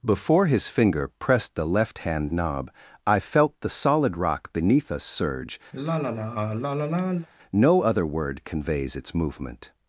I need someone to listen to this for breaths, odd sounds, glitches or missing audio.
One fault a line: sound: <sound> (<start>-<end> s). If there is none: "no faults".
sound: sigh (5.7-7.3 s)